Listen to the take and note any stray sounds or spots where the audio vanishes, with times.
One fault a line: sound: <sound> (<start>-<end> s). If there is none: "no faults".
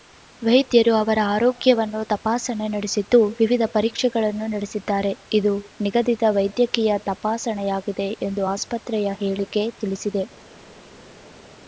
no faults